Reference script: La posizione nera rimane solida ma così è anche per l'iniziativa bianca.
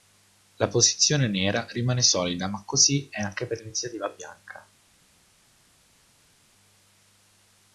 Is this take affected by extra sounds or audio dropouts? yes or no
no